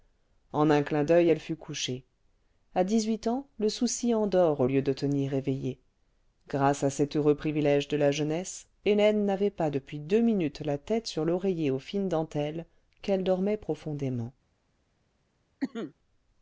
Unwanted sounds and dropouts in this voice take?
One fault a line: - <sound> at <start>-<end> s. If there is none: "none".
- cough at 15.6-15.9 s